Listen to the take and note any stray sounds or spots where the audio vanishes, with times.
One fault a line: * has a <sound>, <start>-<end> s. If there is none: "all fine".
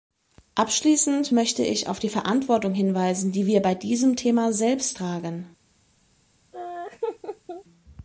* has a laugh, 6.5-7.6 s